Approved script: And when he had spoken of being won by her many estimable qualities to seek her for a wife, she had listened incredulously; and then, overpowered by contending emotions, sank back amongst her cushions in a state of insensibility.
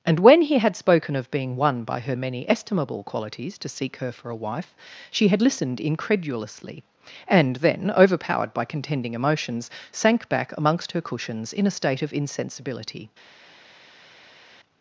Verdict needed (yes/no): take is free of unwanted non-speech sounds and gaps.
yes